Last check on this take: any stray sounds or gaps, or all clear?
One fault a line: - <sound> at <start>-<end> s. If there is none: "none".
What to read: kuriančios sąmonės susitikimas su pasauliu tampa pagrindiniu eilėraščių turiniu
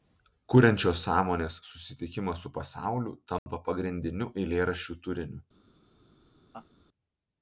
- dropout at 3.4-3.5 s
- laugh at 6.5-6.7 s